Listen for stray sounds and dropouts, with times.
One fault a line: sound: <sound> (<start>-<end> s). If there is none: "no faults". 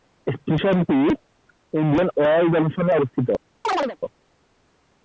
sound: chirp (3.6-4.0 s)